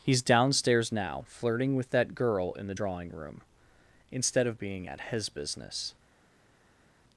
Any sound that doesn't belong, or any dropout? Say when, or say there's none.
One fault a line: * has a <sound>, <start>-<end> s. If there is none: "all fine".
all fine